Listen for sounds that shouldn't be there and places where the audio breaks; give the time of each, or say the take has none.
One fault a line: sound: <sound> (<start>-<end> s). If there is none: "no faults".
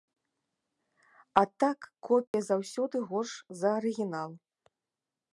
sound: dropout (2.3-2.3 s)